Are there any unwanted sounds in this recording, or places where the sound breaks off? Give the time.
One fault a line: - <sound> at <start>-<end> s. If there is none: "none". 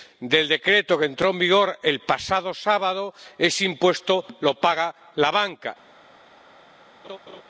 - laugh at 7.0-7.4 s